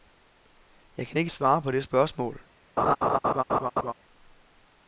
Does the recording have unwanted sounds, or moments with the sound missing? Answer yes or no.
yes